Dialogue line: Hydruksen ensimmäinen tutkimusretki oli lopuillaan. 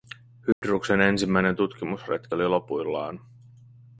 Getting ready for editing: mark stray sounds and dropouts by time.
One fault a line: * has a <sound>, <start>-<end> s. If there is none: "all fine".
* has a dropout, 0.5-0.6 s